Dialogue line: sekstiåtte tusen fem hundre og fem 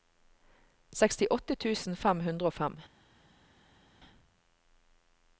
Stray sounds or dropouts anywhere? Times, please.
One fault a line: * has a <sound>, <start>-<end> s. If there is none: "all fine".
all fine